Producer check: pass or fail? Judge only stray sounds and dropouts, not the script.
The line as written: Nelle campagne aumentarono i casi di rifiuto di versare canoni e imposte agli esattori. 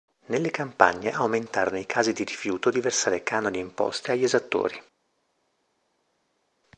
pass